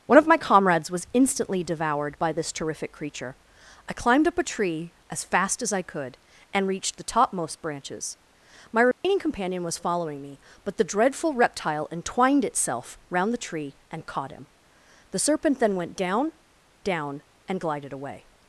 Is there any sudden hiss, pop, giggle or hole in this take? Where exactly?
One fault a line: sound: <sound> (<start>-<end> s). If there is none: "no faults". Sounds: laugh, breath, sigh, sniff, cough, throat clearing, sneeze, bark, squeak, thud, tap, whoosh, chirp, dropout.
sound: dropout (8.9-9.0 s)